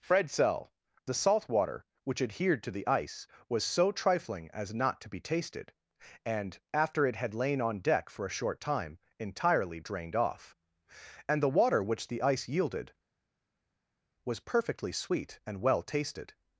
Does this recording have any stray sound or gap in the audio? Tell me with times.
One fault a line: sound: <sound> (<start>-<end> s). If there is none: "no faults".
no faults